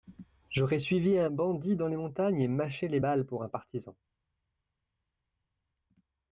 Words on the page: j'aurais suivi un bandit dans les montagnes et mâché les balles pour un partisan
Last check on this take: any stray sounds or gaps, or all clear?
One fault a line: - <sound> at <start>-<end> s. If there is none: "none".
none